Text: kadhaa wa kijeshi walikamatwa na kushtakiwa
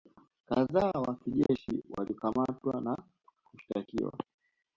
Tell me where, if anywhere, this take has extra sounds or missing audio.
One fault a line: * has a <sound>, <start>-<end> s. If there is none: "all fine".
* has a dropout, 1.5-1.5 s